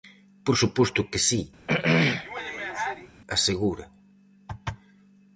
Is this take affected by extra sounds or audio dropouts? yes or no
yes